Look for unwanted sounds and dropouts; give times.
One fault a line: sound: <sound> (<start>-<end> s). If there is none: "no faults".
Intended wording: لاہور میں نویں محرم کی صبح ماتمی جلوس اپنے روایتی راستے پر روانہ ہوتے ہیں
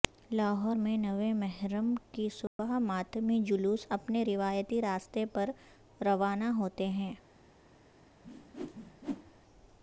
sound: dropout (2.5-2.6 s)
sound: whoosh (8.2-9.4 s)